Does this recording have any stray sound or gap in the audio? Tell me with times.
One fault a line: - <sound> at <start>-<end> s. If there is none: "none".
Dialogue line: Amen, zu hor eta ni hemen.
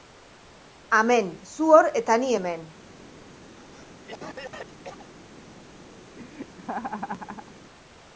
- cough at 3.6-5.1 s
- laugh at 6.2-7.6 s